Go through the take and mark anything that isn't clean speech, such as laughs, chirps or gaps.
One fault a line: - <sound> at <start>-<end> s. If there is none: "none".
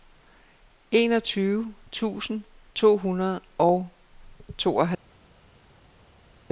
none